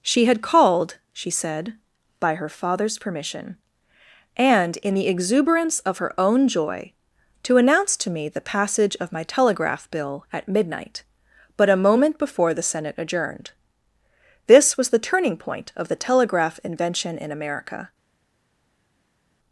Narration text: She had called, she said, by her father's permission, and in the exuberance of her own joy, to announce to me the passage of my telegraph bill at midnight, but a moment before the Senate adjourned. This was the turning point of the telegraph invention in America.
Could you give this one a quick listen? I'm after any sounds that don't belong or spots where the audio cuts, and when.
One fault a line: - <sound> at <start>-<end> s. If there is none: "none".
none